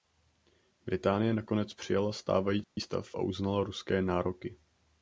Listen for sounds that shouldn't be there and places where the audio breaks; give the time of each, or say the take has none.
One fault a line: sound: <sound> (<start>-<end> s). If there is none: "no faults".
sound: dropout (2.6-2.8 s)